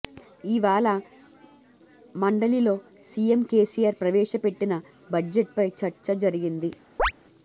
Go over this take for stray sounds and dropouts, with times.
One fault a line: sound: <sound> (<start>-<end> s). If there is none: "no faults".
sound: chirp (7.0-7.1 s)